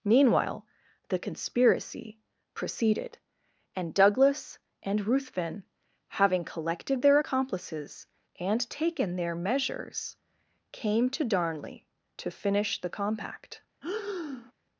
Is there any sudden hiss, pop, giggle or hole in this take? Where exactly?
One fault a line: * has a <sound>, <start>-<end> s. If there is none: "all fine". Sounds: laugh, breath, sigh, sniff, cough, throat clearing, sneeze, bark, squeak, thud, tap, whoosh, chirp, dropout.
* has a breath, 13.8-14.5 s